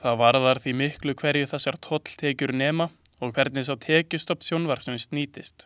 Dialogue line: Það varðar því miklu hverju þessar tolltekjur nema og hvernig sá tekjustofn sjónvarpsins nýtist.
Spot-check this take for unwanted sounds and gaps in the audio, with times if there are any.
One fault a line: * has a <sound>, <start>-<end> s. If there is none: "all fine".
all fine